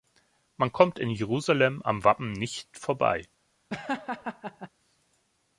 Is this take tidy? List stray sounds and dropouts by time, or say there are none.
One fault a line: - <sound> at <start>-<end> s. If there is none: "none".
- laugh at 3.7-4.7 s